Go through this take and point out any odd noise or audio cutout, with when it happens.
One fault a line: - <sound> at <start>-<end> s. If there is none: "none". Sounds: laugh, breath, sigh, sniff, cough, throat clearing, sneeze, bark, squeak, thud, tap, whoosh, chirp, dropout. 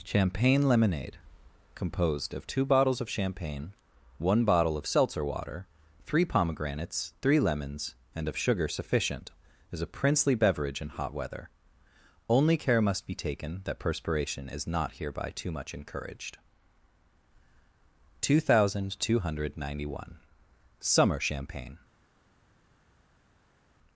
none